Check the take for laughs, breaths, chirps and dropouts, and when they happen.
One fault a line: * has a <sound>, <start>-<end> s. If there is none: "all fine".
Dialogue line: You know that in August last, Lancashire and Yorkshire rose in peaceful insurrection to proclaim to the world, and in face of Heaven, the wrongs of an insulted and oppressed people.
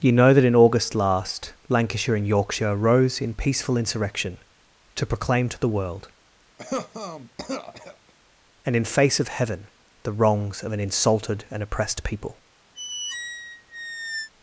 * has a cough, 6.6-8.1 s
* has a squeak, 12.7-14.3 s